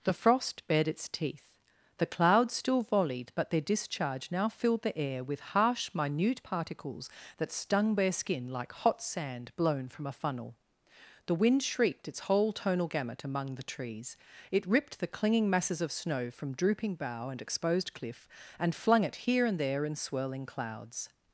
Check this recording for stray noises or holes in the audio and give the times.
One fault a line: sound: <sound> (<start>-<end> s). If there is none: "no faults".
no faults